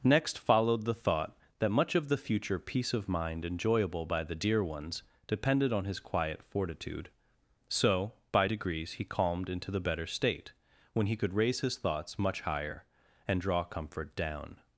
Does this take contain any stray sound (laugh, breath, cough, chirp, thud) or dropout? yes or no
no